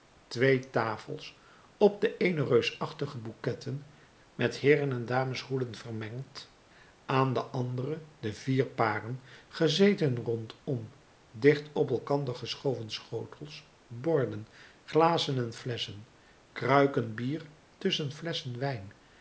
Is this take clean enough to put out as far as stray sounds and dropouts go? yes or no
yes